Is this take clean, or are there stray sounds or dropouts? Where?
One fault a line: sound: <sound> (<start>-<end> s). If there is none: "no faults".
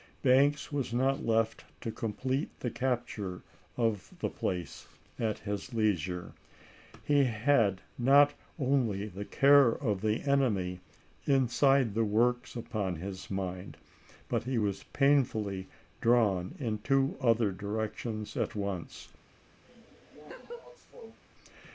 sound: laugh (19.6-21.2 s)